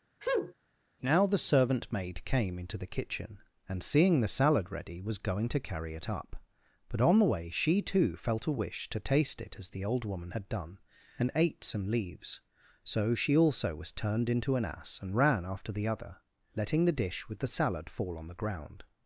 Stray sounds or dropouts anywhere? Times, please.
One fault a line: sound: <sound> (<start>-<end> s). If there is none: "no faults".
sound: sneeze (0.2-0.5 s)